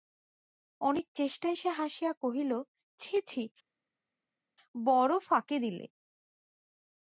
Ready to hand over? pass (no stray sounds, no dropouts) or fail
pass